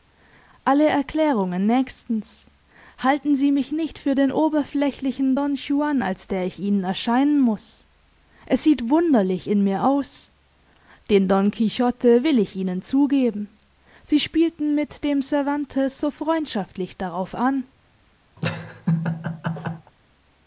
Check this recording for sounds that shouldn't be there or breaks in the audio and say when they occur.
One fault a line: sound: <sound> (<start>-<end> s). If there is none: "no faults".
sound: laugh (18.4-19.9 s)